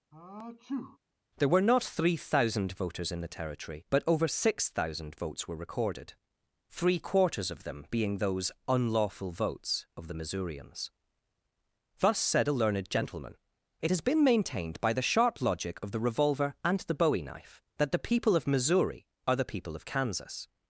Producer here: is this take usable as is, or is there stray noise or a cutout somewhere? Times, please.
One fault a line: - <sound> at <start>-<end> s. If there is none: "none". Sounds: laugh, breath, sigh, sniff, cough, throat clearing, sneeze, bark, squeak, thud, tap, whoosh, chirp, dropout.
- sneeze at 0.1-1.0 s